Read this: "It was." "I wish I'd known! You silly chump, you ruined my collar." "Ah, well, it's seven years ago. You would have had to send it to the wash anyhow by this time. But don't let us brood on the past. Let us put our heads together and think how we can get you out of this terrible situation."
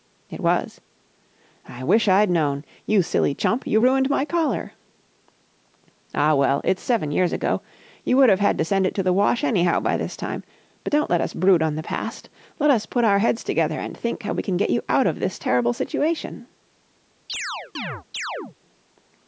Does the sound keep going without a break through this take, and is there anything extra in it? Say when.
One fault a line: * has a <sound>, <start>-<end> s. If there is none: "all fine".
* has a chirp, 17.3-18.6 s